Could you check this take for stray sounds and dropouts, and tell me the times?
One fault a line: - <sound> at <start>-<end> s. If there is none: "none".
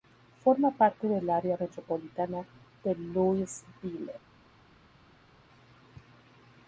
none